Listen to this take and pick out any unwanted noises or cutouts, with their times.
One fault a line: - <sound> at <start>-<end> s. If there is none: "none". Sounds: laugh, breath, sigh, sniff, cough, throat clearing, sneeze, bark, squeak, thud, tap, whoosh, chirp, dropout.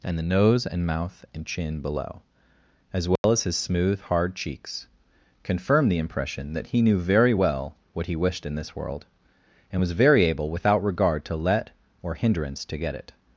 - dropout at 3.2-3.2 s